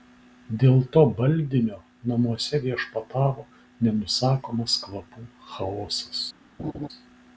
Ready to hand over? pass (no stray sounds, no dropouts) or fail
fail